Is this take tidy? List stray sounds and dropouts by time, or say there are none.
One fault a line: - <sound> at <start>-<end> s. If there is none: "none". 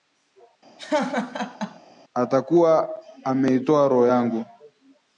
- laugh at 0.8-1.8 s